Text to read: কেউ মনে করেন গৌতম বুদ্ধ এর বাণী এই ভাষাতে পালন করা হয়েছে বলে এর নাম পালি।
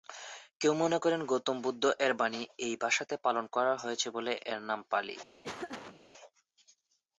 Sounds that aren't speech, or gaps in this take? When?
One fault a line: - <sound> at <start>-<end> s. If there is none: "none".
- laugh at 5.4-6.0 s